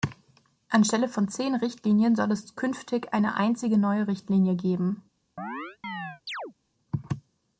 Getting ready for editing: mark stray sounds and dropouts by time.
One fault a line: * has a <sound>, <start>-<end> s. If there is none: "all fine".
* has a chirp, 5.4-6.5 s